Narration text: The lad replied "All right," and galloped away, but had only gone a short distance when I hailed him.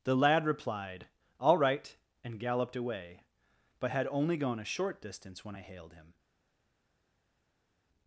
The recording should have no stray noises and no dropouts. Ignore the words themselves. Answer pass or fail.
pass